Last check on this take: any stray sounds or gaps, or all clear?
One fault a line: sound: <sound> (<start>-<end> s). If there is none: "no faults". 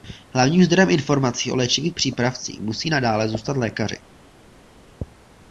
no faults